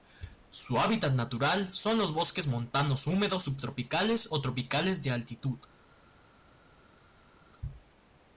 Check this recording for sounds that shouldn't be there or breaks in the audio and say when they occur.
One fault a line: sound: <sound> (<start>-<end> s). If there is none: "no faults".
no faults